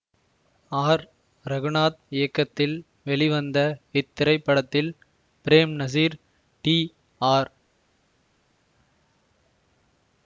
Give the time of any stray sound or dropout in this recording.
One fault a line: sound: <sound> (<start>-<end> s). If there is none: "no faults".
no faults